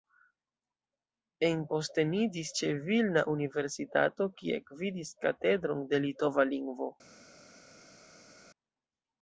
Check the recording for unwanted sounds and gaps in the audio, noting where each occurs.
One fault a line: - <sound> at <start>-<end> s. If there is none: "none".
none